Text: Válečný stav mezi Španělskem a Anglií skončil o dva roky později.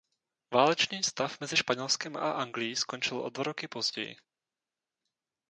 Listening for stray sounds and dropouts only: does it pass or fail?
pass